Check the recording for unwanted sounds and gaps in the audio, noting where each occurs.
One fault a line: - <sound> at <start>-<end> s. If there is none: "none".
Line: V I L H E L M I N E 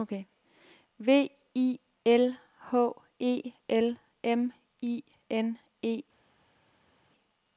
none